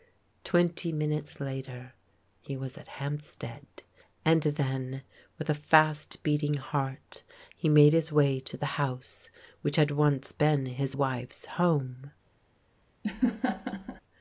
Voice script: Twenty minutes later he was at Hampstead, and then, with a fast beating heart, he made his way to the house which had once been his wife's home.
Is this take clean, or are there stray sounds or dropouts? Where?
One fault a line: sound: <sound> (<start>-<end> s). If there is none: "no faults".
sound: laugh (13.0-14.0 s)